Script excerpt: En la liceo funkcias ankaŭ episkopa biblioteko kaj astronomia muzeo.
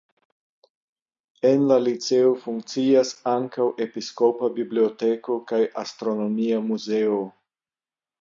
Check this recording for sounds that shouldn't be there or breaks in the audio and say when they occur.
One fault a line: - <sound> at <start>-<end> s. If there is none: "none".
none